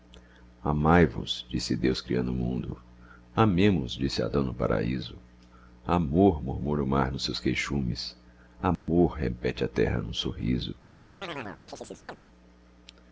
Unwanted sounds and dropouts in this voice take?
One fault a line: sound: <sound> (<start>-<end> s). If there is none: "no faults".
sound: dropout (8.8-8.9 s)
sound: chirp (11.2-12.2 s)